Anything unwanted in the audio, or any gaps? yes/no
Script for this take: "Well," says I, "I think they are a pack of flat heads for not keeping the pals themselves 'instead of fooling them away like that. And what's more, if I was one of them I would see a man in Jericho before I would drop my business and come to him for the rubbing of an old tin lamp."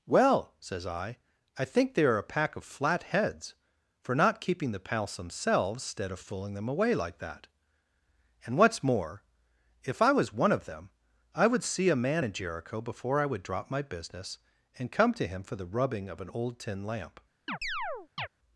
yes